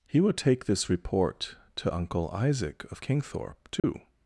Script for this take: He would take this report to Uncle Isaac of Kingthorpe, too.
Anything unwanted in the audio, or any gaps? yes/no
yes